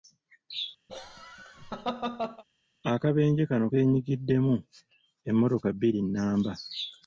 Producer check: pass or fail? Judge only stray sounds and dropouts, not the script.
fail